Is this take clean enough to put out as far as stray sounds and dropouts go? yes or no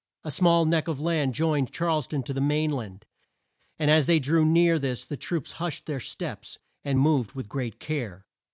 yes